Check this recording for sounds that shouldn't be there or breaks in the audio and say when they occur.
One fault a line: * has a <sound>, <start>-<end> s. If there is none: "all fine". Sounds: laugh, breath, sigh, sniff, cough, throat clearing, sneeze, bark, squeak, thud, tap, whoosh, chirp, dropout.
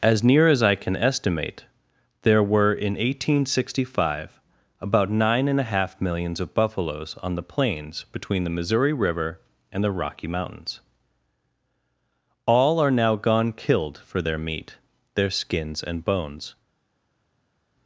all fine